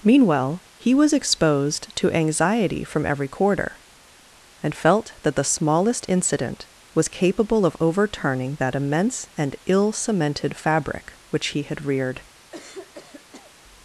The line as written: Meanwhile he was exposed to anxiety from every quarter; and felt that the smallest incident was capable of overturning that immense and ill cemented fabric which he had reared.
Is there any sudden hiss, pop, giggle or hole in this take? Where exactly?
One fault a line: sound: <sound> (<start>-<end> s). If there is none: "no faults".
sound: throat clearing (12.5-13.5 s)